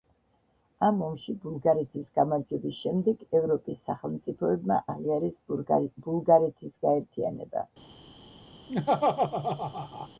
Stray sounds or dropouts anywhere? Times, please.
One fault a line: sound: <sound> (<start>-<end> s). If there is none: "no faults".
sound: laugh (8.7-10.1 s)